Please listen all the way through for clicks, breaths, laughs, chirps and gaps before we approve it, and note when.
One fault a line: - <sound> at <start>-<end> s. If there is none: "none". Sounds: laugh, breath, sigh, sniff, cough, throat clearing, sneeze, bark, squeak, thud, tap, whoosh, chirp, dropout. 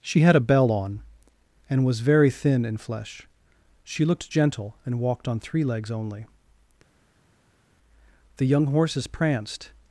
none